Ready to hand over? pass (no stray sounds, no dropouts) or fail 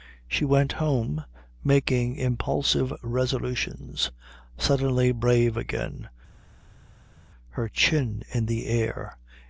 pass